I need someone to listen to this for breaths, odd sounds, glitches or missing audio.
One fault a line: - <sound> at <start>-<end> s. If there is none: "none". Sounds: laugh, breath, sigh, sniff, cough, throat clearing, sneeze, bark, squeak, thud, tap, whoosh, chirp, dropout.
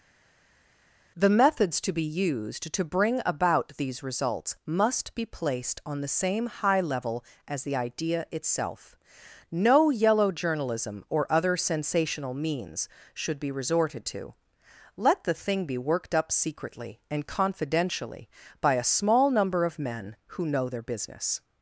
none